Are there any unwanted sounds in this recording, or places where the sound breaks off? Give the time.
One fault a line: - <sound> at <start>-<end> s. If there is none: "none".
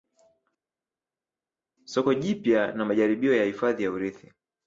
none